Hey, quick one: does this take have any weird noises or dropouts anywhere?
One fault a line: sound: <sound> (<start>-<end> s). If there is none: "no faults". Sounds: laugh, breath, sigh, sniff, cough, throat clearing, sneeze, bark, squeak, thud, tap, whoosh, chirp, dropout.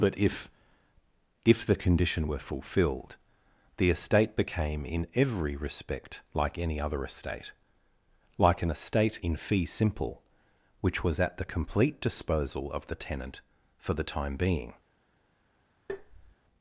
sound: tap (15.9-16.4 s)